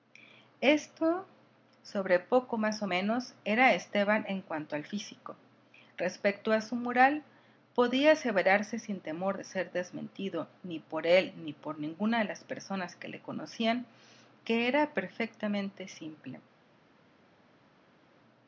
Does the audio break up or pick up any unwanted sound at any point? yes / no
no